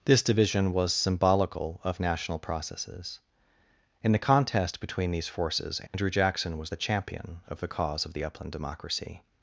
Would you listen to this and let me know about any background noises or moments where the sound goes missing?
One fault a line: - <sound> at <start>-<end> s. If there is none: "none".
- dropout at 5.9-5.9 s